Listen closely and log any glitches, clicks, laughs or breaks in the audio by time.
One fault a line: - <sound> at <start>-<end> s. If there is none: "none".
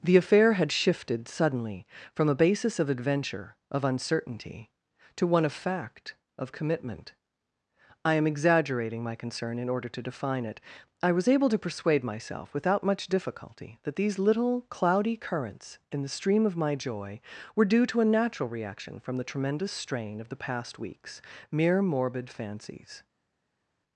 none